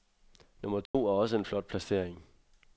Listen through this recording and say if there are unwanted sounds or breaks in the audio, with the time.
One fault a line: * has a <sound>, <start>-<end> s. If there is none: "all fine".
* has a dropout, 0.9-0.9 s